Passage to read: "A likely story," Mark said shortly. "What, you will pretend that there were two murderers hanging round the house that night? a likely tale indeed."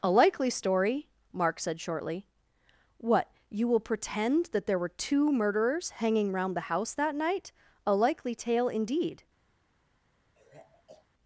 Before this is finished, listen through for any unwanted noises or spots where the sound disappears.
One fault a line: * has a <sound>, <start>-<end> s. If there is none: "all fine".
* has a sigh, 10.4-11.1 s